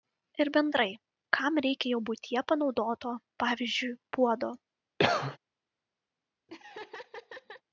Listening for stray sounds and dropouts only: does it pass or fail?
fail